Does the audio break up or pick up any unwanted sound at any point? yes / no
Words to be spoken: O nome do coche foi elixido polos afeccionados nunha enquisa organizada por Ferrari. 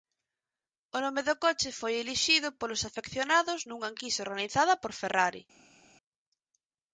no